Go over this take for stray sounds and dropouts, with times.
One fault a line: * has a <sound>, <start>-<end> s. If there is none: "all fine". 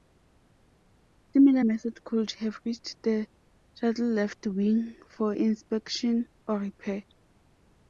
all fine